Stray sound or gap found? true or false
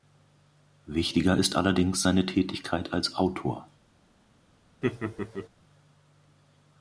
true